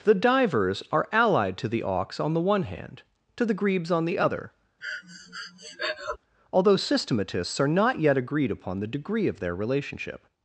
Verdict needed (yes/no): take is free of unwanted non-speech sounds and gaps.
no